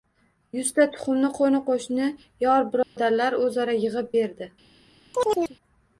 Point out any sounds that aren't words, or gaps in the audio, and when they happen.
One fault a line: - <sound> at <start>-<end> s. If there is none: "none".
- dropout at 2.8-3.0 s
- chirp at 5.1-5.6 s